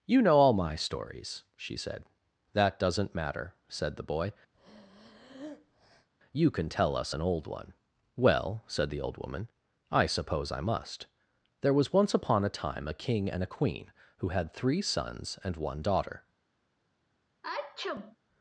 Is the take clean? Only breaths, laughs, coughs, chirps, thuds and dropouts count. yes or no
no